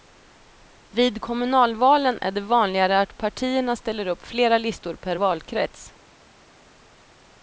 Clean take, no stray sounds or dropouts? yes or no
yes